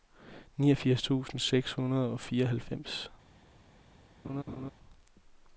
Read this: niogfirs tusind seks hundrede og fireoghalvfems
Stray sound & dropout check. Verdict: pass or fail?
fail